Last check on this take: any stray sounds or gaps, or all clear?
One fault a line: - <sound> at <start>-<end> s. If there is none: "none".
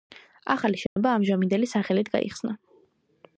- dropout at 0.9-1.0 s